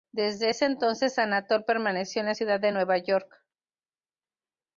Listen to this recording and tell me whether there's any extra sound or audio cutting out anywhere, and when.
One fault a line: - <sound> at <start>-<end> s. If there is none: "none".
none